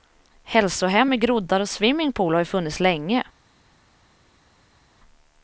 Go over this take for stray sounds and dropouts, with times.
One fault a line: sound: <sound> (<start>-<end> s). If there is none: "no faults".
no faults